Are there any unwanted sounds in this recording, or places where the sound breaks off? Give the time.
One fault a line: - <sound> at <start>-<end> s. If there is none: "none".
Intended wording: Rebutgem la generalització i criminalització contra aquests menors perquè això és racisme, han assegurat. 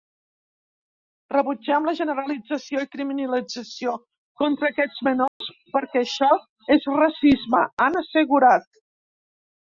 - dropout at 5.3-5.4 s